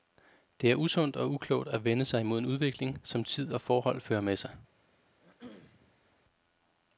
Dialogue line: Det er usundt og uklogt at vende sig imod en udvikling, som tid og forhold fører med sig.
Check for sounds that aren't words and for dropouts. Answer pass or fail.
fail